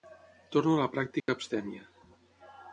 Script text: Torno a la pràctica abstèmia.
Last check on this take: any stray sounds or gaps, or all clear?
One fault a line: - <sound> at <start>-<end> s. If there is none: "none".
- dropout at 1.2-1.3 s